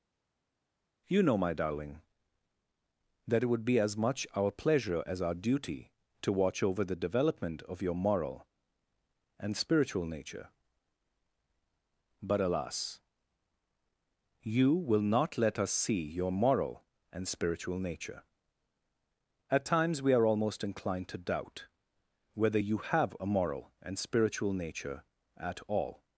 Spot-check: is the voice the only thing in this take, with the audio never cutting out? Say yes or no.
yes